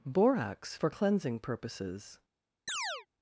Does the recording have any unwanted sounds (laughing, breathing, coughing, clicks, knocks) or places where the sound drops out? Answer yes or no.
yes